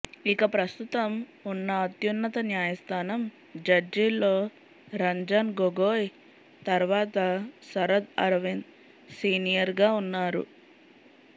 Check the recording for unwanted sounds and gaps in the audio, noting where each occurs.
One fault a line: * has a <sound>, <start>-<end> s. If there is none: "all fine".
all fine